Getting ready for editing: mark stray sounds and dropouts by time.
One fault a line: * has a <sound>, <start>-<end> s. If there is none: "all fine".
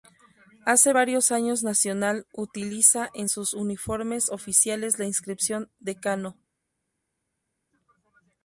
all fine